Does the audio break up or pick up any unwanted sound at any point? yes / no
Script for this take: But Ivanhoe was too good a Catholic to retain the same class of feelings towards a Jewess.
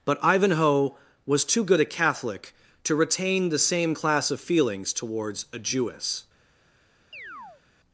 yes